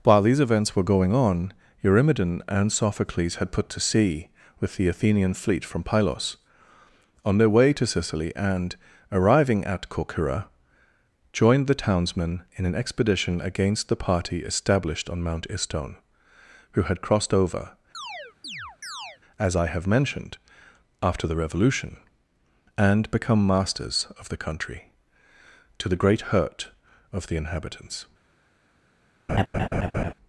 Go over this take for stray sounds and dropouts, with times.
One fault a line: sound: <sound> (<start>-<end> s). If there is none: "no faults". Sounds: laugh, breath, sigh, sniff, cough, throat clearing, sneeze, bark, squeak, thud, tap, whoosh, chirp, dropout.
sound: chirp (17.9-19.2 s)
sound: laugh (29.3-30.1 s)